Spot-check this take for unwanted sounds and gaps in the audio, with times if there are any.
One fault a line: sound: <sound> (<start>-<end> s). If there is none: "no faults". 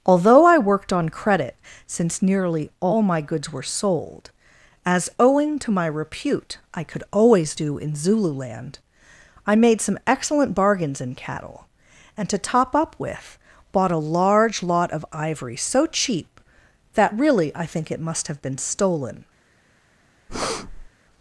sound: breath (20.3-20.9 s)